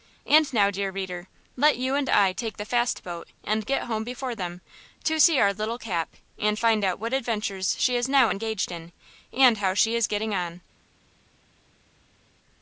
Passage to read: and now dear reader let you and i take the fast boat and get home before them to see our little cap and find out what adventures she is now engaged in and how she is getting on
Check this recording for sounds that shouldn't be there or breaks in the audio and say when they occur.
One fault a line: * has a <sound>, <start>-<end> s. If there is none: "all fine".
all fine